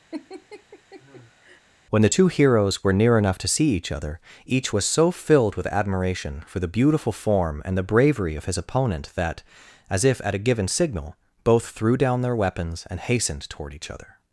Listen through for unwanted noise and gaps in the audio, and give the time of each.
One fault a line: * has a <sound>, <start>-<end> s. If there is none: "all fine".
* has a laugh, 0.1-1.6 s